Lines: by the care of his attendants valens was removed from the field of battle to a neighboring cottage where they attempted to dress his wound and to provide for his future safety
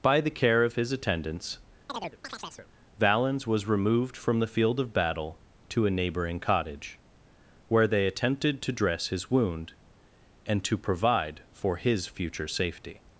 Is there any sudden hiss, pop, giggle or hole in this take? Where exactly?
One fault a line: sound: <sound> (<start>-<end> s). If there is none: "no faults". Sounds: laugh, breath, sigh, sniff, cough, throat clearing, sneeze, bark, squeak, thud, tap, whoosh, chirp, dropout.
sound: chirp (1.9-2.7 s)